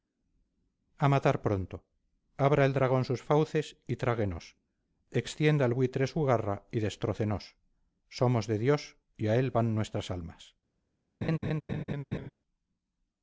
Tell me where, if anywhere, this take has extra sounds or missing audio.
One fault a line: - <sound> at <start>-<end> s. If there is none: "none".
- laugh at 11.2-12.3 s